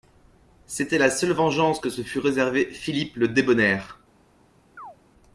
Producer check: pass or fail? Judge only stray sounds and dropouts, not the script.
fail